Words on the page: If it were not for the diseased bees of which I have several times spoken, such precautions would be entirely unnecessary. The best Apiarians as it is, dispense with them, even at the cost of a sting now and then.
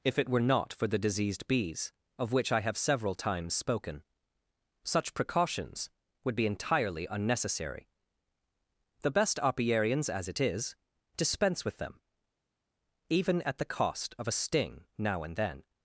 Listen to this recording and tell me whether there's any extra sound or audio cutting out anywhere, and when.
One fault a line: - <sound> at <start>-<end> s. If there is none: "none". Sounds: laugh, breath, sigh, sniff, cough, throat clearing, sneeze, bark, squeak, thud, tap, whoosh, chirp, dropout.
none